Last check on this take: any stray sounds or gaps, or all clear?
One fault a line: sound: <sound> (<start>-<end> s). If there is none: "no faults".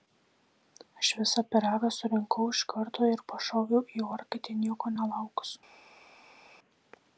no faults